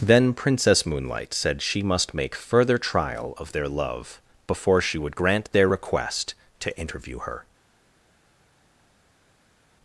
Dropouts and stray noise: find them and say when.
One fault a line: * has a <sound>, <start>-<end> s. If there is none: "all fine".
all fine